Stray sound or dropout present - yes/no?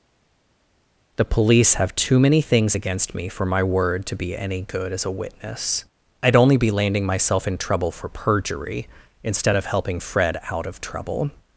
no